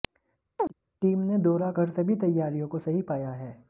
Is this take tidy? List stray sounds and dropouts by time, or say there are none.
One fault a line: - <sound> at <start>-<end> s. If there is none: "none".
- chirp at 0.6-0.7 s